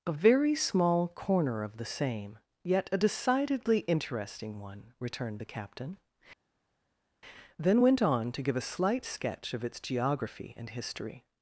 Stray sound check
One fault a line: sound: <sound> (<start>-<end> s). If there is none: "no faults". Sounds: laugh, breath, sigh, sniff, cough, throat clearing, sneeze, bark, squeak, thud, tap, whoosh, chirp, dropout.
no faults